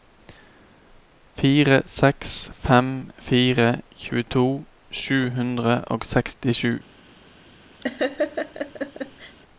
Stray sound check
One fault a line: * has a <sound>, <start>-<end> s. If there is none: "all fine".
* has a laugh, 7.8-9.4 s